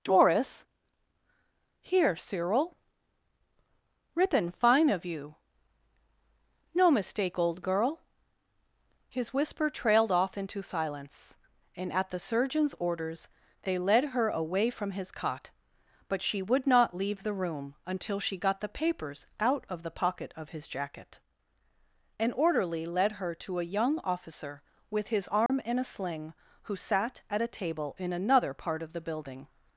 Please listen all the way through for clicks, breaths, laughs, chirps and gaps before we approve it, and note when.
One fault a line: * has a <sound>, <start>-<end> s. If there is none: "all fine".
* has a dropout, 25.5-25.5 s